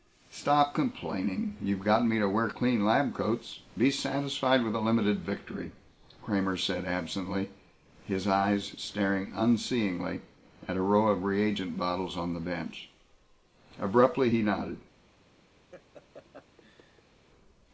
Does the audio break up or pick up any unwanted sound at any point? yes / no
yes